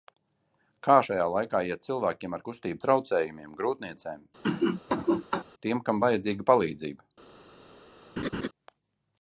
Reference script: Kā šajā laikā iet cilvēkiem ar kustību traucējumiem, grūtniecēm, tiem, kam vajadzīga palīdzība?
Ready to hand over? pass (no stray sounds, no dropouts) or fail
fail